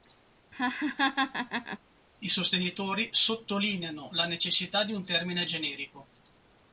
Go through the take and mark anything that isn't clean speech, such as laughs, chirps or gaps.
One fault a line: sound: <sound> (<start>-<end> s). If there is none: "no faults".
sound: laugh (0.5-1.8 s)